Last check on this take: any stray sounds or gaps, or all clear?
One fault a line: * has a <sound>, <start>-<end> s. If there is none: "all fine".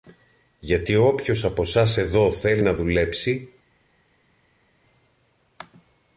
all fine